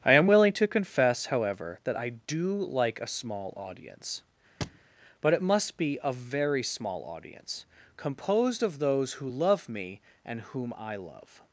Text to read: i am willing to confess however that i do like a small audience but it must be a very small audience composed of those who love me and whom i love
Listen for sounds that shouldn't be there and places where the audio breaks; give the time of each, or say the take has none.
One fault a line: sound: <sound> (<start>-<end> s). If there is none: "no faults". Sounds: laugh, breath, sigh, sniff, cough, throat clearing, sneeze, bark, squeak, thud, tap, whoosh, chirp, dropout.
sound: thud (4.6-4.9 s)